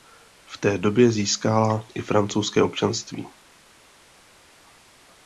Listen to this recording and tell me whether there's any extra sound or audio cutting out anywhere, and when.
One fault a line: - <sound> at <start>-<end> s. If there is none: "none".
none